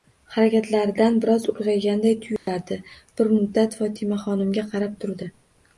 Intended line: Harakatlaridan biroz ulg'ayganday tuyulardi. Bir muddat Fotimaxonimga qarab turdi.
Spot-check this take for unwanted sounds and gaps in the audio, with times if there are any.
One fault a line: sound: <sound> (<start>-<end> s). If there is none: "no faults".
sound: dropout (2.4-2.5 s)